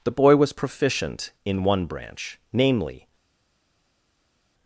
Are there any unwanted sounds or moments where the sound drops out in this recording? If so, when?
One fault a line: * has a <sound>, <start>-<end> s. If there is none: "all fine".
all fine